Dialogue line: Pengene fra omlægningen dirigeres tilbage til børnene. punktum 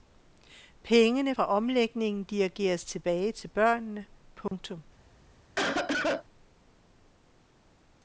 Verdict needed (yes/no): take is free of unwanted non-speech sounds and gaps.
no